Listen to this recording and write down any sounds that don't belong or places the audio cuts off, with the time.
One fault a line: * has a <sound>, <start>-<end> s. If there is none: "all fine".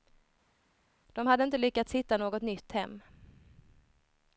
all fine